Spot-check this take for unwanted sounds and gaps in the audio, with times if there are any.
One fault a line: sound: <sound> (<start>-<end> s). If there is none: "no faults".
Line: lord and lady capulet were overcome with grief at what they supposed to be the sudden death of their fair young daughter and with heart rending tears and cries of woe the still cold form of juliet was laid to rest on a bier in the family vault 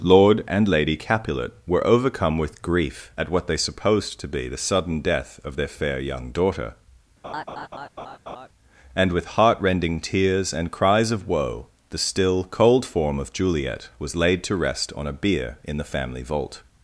sound: laugh (7.2-8.5 s)